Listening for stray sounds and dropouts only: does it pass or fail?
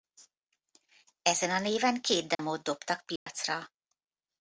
fail